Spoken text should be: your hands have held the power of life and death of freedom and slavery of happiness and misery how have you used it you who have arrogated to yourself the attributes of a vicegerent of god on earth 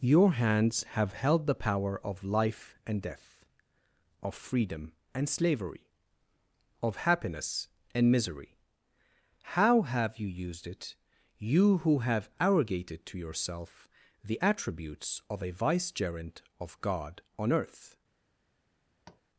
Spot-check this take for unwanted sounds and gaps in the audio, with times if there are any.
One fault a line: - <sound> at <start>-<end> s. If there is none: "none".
- tap at 19.0-19.2 s